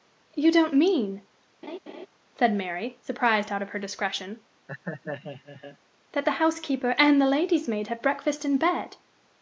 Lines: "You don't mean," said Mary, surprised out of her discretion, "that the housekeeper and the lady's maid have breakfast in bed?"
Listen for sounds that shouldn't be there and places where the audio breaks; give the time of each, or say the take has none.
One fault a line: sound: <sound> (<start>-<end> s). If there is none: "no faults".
sound: laugh (1.6-2.1 s)
sound: laugh (4.7-5.8 s)